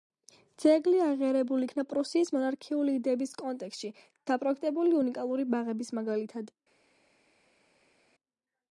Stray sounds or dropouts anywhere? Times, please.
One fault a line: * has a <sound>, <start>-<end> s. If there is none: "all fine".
all fine